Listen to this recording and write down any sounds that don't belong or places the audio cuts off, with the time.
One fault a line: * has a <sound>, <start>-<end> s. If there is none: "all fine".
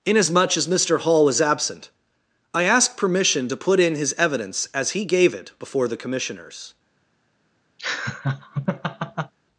* has a laugh, 7.8-9.3 s